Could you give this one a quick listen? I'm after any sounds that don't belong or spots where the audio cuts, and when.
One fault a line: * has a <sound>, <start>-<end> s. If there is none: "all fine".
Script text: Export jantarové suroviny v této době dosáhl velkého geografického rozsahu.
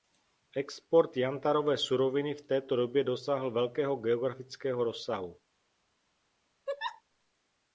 * has a laugh, 6.7-7.0 s